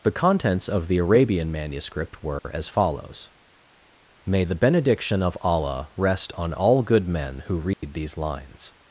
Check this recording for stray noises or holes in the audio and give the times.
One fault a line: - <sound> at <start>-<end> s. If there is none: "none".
- dropout at 2.4-2.4 s
- dropout at 7.7-7.8 s